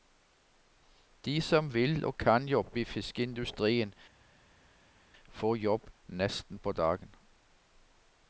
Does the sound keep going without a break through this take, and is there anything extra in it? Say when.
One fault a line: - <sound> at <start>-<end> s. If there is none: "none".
none